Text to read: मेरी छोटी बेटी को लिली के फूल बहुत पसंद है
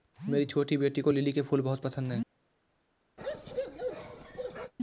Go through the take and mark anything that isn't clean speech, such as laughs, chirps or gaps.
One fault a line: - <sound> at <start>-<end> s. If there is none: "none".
- bark at 3.2-4.7 s